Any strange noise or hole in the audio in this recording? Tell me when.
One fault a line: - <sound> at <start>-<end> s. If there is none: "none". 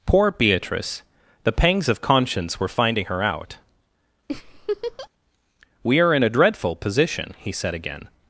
- laugh at 4.3-5.1 s